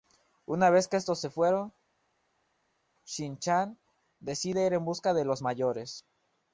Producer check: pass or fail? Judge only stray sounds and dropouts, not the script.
pass